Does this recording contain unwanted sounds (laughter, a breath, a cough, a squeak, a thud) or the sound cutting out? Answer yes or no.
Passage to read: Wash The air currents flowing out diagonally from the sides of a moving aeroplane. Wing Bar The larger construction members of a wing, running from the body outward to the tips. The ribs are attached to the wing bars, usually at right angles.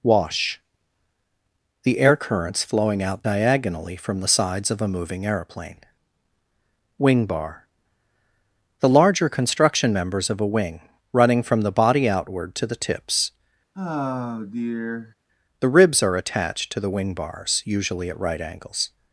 yes